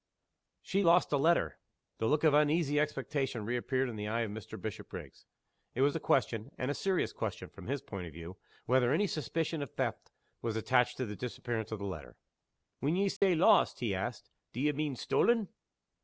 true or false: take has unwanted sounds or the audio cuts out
true